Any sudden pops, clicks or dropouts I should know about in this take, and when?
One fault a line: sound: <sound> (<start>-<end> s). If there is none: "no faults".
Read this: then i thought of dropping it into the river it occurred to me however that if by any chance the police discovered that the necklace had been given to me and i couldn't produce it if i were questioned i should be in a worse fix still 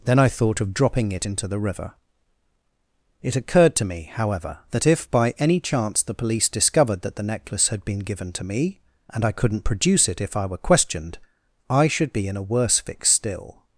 no faults